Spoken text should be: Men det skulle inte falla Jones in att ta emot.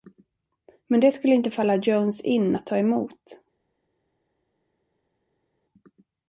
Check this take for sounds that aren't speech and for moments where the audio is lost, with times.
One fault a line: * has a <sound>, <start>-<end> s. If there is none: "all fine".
all fine